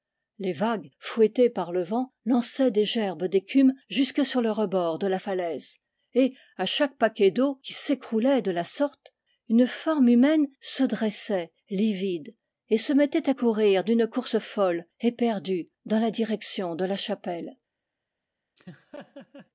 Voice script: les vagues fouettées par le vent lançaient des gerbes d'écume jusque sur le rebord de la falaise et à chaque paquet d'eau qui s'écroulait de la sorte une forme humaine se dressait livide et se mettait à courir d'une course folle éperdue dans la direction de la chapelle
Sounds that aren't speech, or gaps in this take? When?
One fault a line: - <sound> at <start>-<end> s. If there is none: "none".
- laugh at 18.6-19.5 s